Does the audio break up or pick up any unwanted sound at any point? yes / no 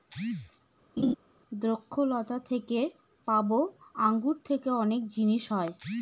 yes